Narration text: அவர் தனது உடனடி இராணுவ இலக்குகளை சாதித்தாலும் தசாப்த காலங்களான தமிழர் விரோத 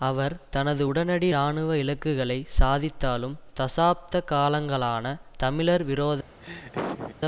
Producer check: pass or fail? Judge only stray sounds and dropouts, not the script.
fail